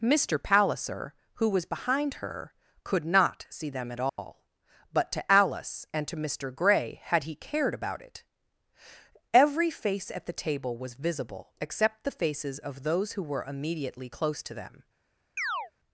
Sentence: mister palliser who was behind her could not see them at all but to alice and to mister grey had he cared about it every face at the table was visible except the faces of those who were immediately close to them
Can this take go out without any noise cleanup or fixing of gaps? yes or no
no